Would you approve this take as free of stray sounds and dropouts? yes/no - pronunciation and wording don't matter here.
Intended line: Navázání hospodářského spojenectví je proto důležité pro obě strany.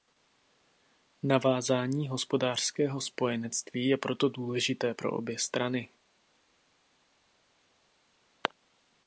yes